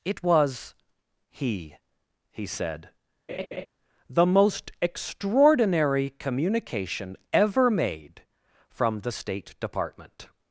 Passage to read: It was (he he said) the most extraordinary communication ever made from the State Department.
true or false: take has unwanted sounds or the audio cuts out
true